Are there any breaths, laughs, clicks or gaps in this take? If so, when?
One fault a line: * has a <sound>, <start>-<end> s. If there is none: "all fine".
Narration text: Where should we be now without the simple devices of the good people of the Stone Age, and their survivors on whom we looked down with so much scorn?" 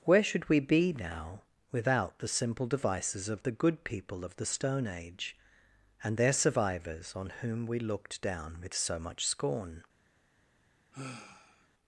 * has a sigh, 10.9-11.7 s